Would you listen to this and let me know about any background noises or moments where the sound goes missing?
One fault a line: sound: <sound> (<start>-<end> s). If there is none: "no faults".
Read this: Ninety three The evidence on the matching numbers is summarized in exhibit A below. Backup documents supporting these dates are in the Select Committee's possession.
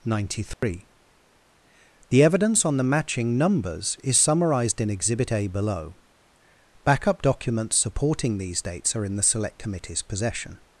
sound: dropout (0.5-0.6 s)